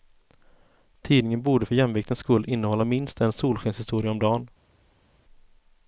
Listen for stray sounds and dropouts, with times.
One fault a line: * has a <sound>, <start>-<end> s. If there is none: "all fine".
all fine